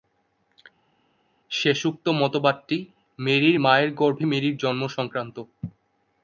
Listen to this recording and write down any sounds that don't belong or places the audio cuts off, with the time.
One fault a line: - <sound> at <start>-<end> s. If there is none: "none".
none